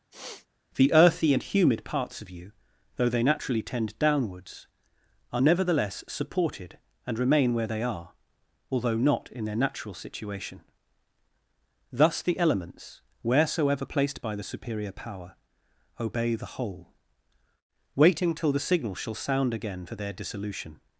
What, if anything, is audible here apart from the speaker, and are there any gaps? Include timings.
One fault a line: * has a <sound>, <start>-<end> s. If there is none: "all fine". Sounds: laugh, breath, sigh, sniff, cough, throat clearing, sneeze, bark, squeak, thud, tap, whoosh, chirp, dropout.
* has a sniff, 0.1-0.5 s